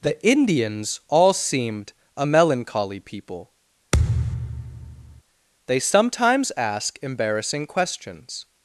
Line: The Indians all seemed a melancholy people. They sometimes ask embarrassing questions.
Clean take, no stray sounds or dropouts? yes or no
no